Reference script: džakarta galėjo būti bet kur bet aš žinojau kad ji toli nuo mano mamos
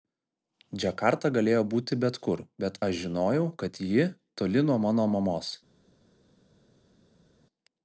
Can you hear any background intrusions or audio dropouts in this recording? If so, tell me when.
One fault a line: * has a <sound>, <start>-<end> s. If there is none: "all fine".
all fine